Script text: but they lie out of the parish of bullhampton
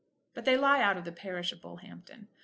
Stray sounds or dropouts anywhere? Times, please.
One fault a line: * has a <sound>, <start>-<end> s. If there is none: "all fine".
all fine